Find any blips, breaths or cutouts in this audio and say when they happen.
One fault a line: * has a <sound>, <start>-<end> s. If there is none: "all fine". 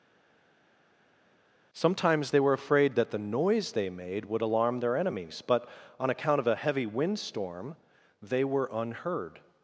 all fine